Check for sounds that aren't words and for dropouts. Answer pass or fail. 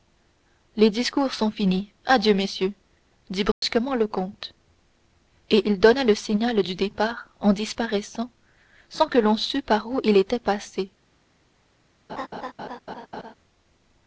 fail